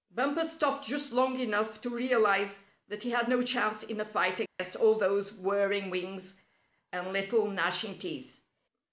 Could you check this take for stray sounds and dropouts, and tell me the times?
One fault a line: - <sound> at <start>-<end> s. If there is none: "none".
- dropout at 4.5-4.6 s